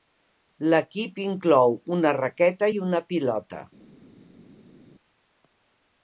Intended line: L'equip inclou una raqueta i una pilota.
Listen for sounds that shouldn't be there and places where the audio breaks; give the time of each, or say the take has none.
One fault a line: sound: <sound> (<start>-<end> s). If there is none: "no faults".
no faults